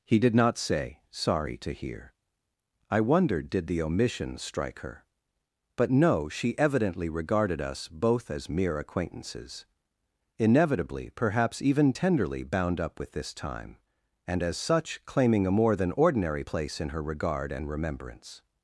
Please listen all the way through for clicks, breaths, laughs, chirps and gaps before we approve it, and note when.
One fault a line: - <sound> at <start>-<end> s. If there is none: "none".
none